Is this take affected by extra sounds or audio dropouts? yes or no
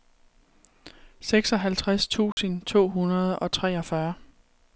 yes